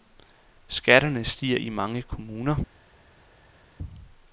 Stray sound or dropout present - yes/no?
no